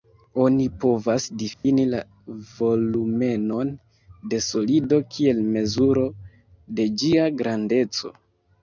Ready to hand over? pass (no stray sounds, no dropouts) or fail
fail